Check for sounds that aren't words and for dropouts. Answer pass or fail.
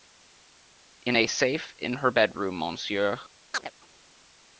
fail